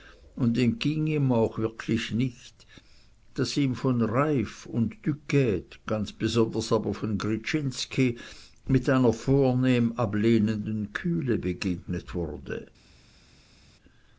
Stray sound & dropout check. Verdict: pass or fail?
pass